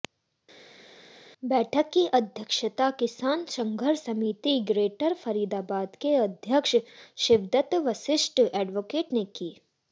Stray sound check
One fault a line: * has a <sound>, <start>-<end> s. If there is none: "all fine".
all fine